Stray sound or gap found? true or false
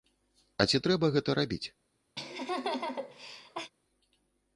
true